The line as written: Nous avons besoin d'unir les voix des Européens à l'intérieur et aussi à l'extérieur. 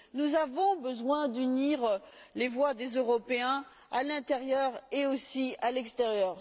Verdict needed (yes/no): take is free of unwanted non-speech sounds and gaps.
yes